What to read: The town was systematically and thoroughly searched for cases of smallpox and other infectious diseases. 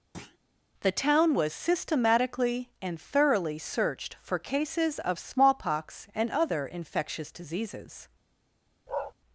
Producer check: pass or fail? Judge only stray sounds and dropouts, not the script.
fail